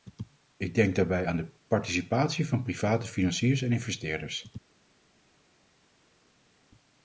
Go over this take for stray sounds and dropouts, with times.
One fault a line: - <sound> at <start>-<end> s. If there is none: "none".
none